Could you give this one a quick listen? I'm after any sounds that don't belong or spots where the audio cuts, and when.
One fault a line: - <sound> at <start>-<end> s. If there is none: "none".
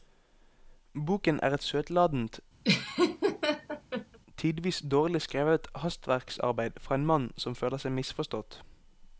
- laugh at 2.6-4.2 s